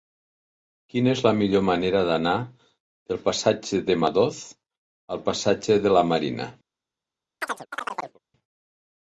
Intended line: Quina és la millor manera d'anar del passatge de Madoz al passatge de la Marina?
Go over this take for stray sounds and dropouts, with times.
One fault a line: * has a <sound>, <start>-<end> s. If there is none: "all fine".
* has a chirp, 7.4-8.2 s